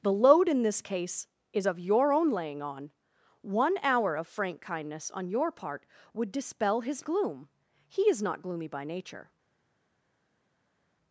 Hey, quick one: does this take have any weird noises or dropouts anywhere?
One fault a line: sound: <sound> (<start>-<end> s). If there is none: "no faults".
no faults